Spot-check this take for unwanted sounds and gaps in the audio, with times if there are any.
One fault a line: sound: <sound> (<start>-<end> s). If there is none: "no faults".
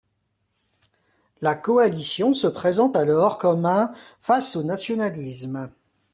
no faults